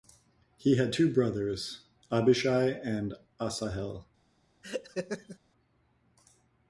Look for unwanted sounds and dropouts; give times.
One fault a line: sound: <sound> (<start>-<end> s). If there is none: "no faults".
sound: laugh (4.6-5.4 s)